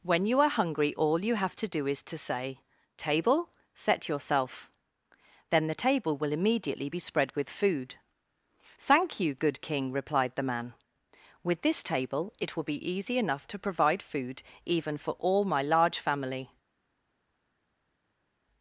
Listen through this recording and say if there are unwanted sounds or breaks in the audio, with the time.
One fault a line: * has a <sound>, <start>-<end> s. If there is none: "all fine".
all fine